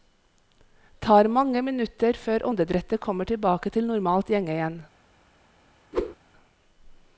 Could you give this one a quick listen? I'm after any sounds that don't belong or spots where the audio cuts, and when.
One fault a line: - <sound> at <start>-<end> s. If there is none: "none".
- whoosh at 5.9-6.2 s